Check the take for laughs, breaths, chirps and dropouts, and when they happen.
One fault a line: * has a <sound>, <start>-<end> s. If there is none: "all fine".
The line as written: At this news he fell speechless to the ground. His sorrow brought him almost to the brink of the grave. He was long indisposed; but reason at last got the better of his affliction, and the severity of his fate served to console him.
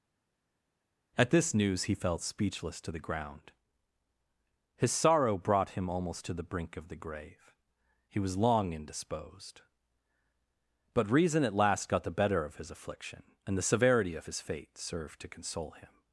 all fine